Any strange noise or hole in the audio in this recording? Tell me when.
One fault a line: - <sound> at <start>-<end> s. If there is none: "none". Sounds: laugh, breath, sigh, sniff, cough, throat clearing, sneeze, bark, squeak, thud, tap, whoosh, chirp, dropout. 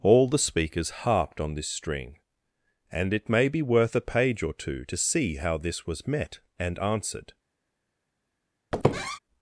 - squeak at 8.7-9.2 s